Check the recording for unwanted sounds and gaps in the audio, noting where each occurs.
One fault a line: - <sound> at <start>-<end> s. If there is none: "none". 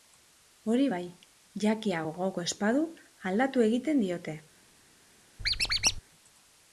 - squeak at 5.4-6.0 s